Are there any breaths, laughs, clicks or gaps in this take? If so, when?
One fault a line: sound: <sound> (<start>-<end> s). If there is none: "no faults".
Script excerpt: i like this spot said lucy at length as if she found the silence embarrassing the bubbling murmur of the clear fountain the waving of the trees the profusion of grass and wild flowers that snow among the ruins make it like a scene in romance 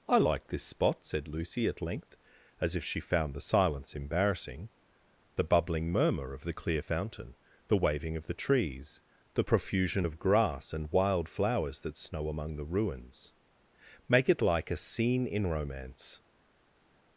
no faults